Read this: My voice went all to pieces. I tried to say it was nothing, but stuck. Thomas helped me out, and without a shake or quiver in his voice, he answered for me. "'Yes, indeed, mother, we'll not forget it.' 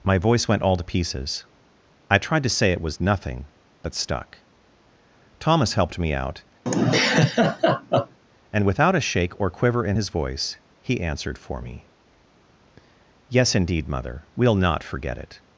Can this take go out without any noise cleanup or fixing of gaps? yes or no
no